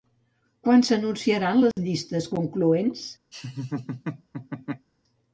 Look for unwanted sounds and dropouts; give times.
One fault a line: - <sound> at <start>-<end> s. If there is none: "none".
- dropout at 1.7-1.8 s
- laugh at 3.3-4.9 s